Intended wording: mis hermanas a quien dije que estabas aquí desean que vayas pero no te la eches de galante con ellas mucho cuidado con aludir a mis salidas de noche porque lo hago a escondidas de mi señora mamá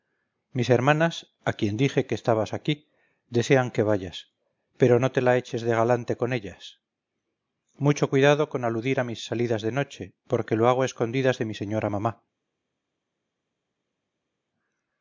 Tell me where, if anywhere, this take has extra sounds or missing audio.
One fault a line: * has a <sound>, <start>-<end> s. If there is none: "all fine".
all fine